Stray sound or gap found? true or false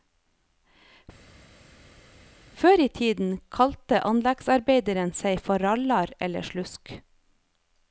false